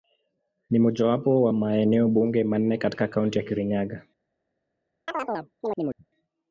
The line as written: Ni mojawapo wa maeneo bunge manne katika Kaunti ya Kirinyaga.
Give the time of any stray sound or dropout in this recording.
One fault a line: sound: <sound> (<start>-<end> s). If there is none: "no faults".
sound: chirp (5.1-6.1 s)